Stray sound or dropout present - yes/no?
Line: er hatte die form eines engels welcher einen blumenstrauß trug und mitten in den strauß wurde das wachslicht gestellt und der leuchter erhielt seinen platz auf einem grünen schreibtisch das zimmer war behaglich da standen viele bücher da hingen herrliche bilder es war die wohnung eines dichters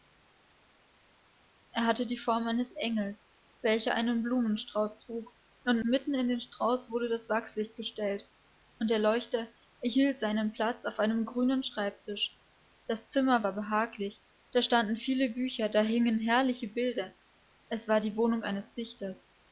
no